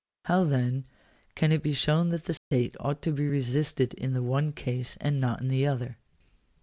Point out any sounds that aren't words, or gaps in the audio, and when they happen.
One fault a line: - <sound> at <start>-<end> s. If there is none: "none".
- dropout at 2.4-2.5 s